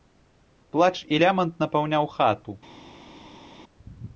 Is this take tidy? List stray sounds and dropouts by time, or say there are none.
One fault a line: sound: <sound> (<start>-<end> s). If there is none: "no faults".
no faults